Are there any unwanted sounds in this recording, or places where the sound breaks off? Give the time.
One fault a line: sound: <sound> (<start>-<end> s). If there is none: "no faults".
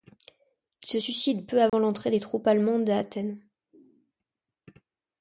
sound: dropout (1.7-1.7 s)